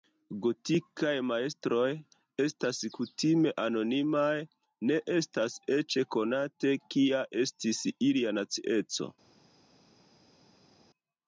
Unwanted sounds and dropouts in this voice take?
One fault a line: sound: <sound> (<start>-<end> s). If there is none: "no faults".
no faults